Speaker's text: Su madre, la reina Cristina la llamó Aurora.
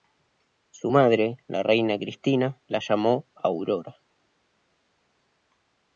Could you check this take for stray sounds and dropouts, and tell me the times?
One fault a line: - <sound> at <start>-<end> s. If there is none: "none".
none